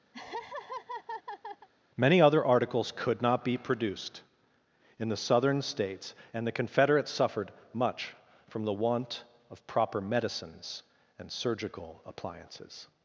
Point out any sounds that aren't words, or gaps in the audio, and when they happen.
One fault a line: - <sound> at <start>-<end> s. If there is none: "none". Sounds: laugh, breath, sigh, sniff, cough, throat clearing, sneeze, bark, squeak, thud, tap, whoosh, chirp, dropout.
- laugh at 0.1-1.7 s